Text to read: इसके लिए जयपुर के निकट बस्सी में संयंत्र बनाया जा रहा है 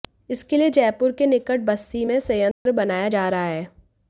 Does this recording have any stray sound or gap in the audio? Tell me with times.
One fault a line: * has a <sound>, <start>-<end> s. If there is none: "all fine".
* has a dropout, 2.5-2.7 s